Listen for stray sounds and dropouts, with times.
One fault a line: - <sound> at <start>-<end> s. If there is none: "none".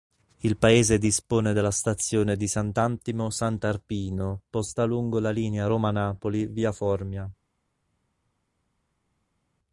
none